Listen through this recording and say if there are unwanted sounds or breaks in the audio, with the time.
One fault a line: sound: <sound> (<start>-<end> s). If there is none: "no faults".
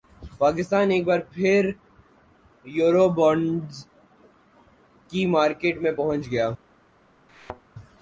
sound: thud (7.3-7.6 s)